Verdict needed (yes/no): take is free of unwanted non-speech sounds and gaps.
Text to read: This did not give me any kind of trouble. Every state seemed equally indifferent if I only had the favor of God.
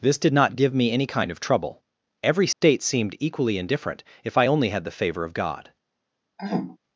no